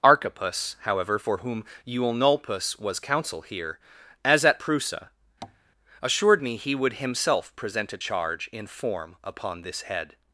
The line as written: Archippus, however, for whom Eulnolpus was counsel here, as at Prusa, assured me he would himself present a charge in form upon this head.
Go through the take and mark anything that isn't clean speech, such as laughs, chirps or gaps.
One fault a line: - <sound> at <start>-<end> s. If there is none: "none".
- tap at 5.4-5.6 s